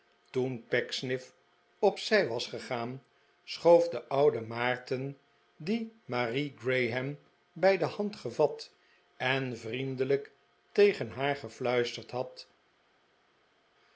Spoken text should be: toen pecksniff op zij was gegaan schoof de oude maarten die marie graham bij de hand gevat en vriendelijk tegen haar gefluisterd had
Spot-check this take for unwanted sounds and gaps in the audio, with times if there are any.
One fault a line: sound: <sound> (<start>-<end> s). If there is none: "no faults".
no faults